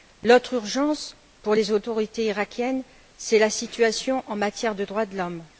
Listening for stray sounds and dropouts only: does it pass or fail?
pass